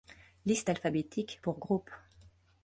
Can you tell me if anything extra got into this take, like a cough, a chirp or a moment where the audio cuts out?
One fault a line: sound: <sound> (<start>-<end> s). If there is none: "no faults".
no faults